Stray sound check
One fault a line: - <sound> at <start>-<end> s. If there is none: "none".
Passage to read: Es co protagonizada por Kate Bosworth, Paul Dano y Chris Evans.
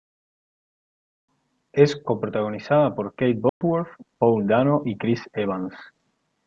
- dropout at 3.5-3.6 s